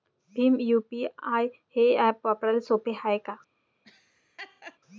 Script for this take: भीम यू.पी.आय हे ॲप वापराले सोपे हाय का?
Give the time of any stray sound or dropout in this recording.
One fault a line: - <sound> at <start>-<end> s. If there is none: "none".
- laugh at 3.8-4.8 s